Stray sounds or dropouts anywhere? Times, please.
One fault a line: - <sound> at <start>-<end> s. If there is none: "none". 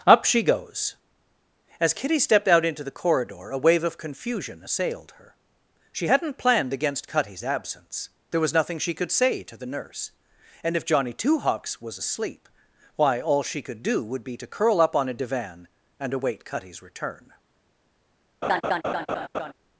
- laugh at 18.4-19.5 s